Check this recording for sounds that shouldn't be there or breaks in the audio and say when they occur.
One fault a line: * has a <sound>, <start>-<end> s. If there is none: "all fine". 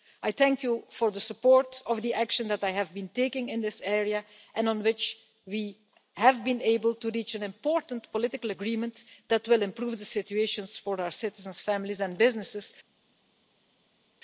all fine